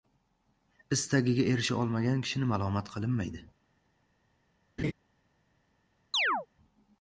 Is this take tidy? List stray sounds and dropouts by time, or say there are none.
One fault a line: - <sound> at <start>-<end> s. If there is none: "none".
- laugh at 4.8-4.9 s
- chirp at 6.1-6.5 s